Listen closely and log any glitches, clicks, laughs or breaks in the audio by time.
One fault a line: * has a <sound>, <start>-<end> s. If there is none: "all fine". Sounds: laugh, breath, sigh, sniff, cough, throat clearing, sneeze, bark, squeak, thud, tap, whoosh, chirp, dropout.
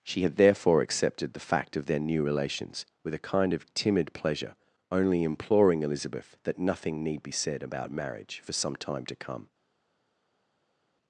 all fine